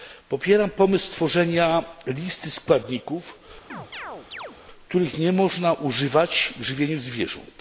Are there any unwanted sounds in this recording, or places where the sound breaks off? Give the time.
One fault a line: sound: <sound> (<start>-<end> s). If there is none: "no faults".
sound: chirp (3.7-4.6 s)